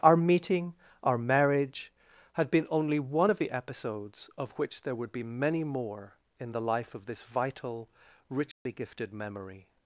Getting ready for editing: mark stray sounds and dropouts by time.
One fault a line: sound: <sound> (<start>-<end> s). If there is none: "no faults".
sound: dropout (8.5-8.7 s)